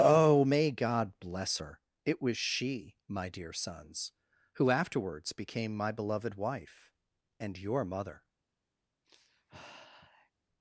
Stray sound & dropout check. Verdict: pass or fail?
fail